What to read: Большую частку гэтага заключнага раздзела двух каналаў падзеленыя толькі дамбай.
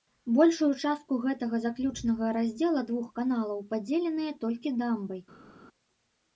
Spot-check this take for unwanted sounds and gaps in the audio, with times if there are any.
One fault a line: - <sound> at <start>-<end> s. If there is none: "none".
none